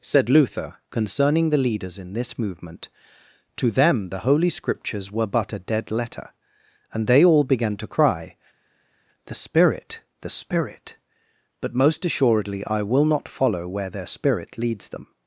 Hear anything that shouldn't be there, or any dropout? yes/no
no